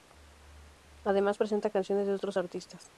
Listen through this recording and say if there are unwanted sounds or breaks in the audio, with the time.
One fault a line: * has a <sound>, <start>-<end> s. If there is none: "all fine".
all fine